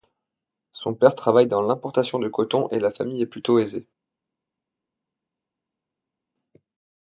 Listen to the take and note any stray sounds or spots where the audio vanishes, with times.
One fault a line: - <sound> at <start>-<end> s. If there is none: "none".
none